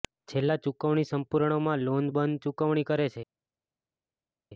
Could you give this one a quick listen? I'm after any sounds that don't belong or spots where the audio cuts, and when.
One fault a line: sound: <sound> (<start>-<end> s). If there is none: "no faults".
no faults